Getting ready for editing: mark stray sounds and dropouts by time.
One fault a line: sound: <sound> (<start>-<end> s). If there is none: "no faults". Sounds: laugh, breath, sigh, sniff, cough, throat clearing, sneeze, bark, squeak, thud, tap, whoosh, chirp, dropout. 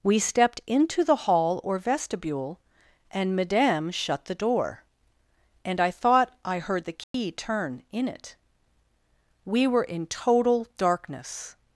sound: dropout (7.0-7.1 s)